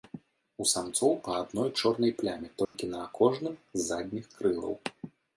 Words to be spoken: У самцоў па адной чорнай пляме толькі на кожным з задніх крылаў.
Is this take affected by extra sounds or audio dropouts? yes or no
yes